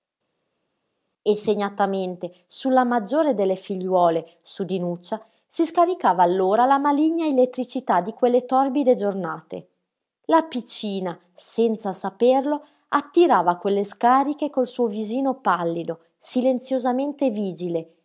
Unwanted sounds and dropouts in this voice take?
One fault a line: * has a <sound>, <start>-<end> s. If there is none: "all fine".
all fine